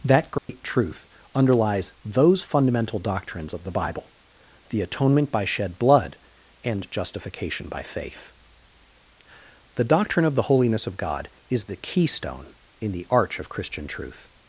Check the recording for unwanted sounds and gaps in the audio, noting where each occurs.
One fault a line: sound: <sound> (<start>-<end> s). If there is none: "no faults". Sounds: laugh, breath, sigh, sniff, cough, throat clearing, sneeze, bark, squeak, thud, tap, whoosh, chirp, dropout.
sound: dropout (0.4-0.5 s)